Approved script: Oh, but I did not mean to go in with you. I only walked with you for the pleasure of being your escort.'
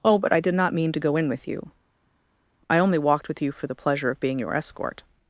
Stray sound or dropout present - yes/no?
no